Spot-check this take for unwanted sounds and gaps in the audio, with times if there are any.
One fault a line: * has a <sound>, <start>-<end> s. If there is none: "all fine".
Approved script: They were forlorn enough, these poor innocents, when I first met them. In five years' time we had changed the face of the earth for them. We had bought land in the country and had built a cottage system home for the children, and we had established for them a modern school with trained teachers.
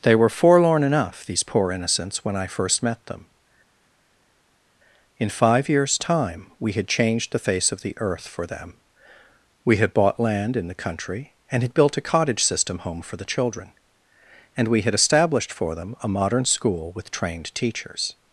all fine